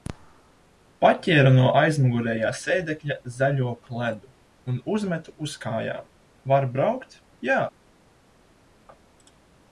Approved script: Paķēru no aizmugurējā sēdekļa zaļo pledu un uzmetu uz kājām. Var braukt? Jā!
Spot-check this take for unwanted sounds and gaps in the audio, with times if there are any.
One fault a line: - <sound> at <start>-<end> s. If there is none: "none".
none